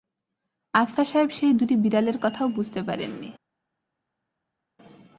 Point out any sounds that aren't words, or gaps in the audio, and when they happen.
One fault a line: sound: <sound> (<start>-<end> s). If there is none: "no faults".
no faults